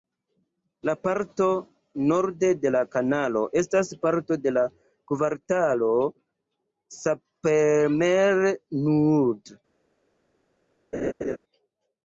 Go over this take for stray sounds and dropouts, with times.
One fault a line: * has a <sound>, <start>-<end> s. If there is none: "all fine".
* has a laugh, 10.9-11.4 s